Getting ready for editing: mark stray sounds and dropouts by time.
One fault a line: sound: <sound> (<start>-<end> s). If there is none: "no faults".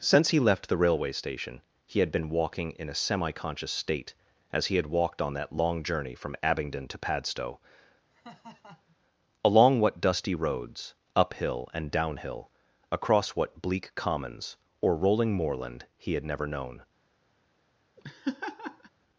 sound: laugh (8.1-9.0 s)
sound: laugh (18.0-18.9 s)